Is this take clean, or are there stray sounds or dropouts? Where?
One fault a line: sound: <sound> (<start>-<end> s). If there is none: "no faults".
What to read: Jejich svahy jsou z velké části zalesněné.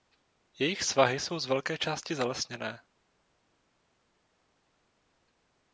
no faults